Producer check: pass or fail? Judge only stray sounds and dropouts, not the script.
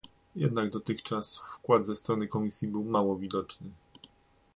pass